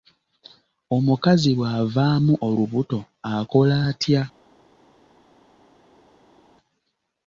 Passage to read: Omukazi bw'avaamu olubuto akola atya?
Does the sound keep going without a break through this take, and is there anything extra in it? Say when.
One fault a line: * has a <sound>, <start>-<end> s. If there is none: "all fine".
all fine